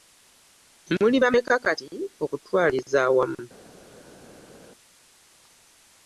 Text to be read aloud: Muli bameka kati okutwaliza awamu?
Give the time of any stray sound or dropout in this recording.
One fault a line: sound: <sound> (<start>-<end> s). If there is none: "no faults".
no faults